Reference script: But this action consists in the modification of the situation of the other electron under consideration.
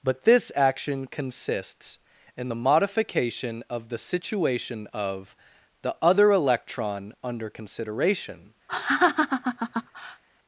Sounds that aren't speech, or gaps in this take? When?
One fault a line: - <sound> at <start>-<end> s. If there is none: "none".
- laugh at 8.7-10.2 s